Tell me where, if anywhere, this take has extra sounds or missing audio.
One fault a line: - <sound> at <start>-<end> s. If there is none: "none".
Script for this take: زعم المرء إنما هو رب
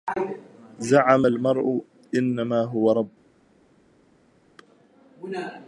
none